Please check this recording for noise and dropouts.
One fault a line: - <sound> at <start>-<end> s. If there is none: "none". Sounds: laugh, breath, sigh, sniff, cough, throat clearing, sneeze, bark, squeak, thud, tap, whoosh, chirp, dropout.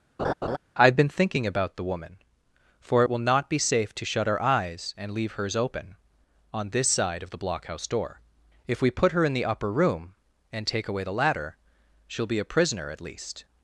- laugh at 0.2-0.6 s